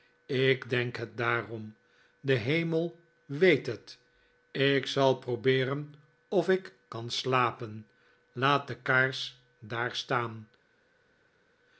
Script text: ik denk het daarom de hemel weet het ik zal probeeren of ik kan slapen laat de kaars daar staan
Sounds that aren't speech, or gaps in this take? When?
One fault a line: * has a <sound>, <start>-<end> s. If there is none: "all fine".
all fine